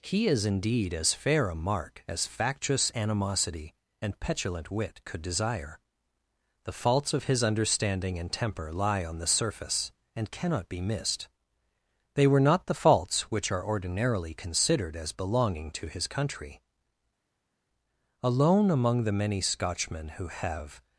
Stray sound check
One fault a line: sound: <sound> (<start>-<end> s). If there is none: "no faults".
no faults